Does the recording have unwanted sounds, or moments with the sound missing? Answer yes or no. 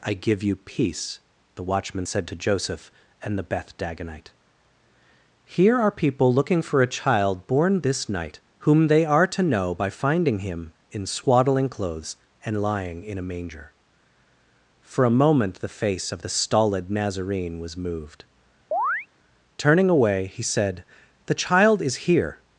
yes